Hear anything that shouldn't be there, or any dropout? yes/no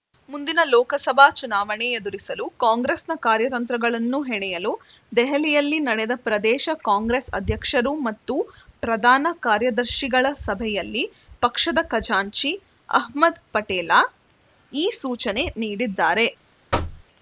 yes